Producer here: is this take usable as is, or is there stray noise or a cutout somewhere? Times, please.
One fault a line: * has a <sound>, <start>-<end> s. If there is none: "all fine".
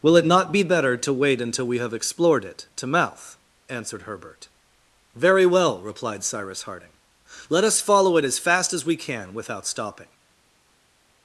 all fine